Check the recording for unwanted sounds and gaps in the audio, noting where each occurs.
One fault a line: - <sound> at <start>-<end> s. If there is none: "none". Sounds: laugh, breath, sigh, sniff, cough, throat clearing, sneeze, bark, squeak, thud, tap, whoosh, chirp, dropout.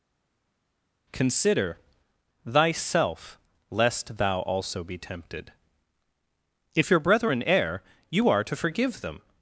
none